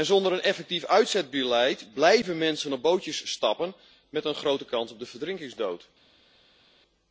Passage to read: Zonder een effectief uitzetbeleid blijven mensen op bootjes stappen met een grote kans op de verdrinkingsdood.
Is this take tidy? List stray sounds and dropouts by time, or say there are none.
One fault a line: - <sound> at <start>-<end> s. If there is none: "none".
none